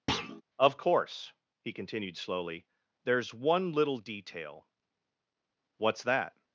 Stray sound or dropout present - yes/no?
yes